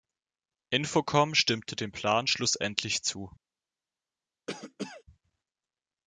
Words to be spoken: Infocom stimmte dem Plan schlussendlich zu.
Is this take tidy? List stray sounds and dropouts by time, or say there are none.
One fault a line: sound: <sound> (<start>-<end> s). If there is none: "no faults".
sound: cough (4.5-5.0 s)